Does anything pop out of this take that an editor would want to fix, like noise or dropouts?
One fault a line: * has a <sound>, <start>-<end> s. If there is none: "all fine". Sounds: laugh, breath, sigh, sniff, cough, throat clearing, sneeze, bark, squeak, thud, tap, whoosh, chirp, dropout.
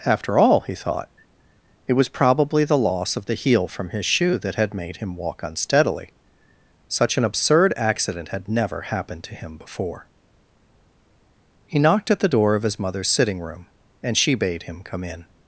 all fine